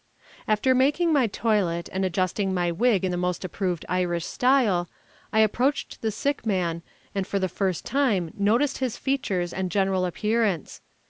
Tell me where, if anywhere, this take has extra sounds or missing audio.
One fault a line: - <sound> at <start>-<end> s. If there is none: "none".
none